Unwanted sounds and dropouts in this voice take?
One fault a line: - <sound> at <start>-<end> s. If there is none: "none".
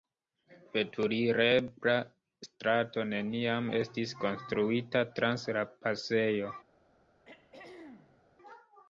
- throat clearing at 7.2-8.2 s